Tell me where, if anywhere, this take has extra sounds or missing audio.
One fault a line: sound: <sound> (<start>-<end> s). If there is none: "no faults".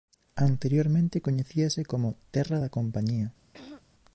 sound: throat clearing (3.5-3.8 s)